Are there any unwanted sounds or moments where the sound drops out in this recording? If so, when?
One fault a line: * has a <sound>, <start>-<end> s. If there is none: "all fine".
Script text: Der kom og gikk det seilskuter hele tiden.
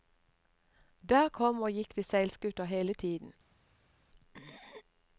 all fine